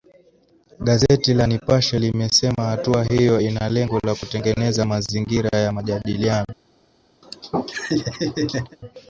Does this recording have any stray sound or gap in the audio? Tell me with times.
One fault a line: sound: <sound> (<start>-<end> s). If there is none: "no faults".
sound: laugh (7.2-8.8 s)